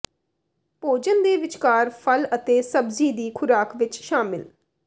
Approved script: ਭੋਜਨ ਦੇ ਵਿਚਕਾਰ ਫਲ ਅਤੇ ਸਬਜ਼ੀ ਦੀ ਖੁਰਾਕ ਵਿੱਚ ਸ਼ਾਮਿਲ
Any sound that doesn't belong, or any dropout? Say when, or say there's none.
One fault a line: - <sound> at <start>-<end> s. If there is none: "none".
none